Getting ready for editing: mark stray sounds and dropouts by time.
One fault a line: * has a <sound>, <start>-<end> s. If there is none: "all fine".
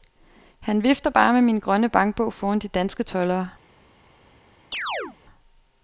* has a chirp, 4.7-5.2 s